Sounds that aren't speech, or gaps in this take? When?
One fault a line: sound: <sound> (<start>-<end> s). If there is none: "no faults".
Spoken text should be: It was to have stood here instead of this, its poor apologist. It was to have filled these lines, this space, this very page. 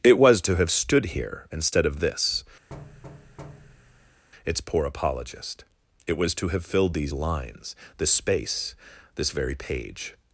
sound: thud (2.7-4.2 s)